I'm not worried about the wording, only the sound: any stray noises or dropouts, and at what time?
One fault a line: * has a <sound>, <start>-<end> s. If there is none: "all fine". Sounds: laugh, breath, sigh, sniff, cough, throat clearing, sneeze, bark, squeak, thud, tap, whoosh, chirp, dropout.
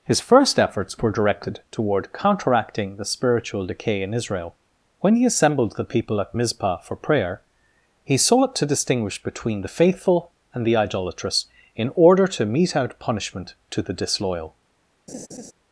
* has a laugh, 15.1-15.5 s